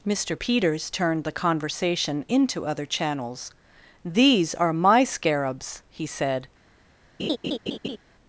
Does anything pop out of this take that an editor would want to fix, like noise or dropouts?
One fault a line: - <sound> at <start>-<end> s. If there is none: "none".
- laugh at 7.2-8.0 s